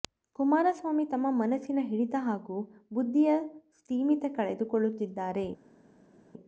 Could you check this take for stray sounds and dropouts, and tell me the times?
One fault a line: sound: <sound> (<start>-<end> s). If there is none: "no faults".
no faults